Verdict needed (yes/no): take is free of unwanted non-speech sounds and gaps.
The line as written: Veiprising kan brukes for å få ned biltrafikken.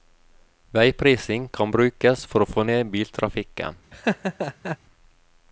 no